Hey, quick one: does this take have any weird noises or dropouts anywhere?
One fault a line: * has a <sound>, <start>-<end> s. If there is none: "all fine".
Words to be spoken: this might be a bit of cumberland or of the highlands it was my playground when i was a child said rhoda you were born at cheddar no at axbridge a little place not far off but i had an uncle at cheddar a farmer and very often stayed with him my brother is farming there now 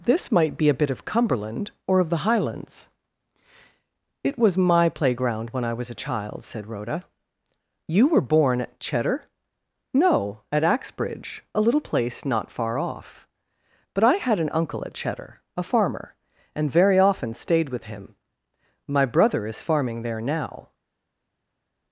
all fine